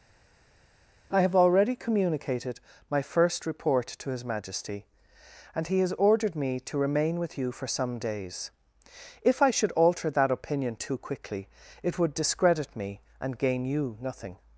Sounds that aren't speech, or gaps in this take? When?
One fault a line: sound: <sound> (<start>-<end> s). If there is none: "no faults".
no faults